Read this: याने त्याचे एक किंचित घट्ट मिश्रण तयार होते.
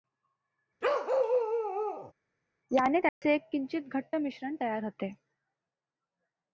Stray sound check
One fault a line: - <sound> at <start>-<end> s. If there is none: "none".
- bark at 0.8-2.1 s
- dropout at 3.1-3.2 s